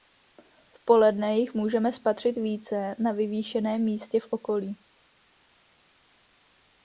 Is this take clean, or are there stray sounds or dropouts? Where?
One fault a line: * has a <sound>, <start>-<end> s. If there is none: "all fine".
all fine